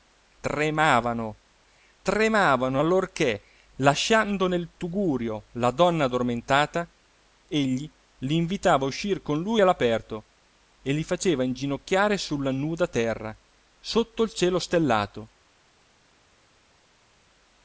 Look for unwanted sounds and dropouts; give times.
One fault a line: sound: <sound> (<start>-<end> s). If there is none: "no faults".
no faults